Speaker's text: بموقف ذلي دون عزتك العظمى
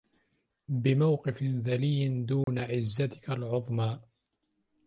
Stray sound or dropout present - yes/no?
yes